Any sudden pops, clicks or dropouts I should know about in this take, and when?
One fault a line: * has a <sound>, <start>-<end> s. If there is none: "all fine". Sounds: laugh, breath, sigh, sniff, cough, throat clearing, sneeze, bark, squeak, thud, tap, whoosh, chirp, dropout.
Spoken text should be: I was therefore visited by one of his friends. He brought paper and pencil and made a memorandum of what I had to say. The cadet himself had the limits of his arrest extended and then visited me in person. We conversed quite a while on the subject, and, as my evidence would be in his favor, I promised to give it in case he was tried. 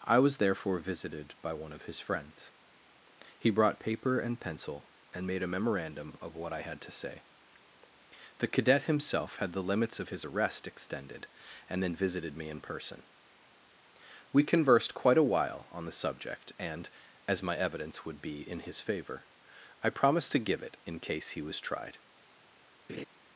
* has a laugh, 22.9-23.1 s